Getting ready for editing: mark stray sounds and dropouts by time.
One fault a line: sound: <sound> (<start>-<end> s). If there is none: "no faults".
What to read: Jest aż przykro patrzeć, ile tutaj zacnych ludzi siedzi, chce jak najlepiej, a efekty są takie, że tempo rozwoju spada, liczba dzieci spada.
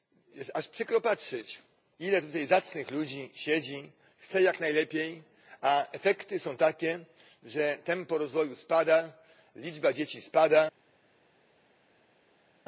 no faults